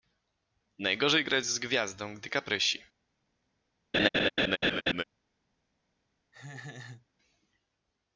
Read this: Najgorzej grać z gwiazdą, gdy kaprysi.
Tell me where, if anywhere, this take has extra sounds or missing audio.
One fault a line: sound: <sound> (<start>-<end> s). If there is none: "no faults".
sound: laugh (3.9-5.0 s)
sound: laugh (6.3-7.1 s)